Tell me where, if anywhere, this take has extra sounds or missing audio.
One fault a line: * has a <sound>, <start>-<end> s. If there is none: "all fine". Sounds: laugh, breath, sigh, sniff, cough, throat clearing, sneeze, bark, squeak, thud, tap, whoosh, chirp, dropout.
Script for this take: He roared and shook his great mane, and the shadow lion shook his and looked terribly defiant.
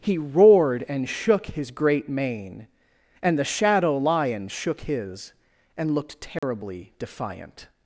* has a dropout, 6.4-6.4 s